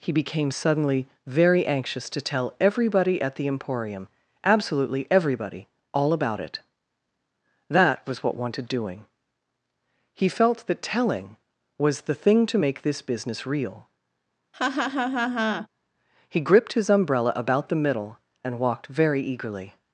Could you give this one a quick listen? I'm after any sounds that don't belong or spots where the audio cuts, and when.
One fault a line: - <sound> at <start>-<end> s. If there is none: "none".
- laugh at 14.5-15.7 s